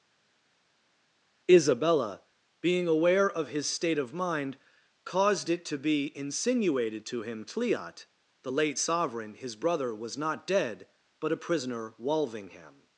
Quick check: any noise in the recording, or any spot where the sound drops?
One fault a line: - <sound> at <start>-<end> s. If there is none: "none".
none